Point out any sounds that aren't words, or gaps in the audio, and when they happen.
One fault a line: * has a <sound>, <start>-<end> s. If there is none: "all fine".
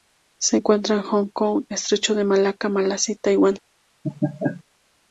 * has a laugh, 4.0-4.6 s